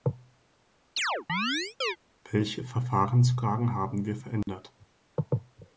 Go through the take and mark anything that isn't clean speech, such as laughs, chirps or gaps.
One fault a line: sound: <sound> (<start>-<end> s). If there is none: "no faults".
sound: chirp (1.0-2.0 s)
sound: dropout (4.4-4.5 s)